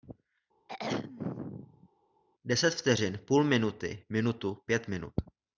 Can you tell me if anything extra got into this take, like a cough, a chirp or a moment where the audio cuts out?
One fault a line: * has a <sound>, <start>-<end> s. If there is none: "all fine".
* has a throat clearing, 0.7-1.9 s